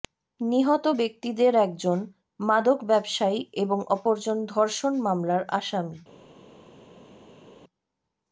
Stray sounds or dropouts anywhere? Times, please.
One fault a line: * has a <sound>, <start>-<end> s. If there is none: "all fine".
all fine